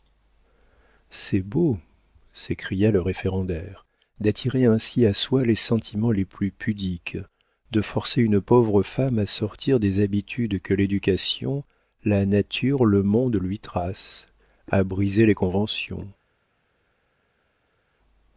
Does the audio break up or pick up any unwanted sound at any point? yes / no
no